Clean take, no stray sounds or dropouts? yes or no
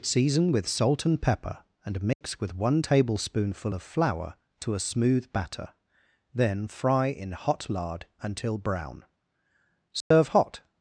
no